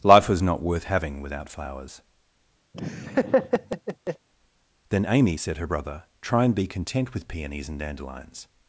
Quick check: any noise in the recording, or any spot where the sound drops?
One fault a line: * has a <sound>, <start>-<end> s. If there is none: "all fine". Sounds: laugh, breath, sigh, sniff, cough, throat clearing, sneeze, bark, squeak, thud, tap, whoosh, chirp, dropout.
* has a laugh, 2.7-4.3 s